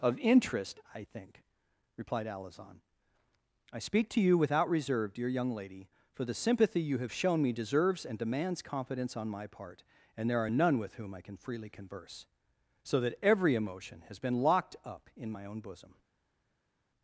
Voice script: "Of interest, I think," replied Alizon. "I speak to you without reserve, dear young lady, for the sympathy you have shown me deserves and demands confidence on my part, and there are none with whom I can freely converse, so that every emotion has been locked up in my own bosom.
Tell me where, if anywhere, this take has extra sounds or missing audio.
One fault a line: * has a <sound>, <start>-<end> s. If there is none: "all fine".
all fine